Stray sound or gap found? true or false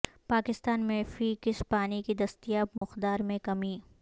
true